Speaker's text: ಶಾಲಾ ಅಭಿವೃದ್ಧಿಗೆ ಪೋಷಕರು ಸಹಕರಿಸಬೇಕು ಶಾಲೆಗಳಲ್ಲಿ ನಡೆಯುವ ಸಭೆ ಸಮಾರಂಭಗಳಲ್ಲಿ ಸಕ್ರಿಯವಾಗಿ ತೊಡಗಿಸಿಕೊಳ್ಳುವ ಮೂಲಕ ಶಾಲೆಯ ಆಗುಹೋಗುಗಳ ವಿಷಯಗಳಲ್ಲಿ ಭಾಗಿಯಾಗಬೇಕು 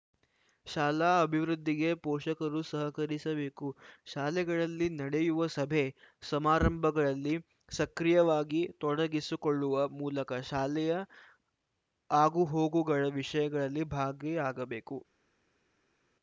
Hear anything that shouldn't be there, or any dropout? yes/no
no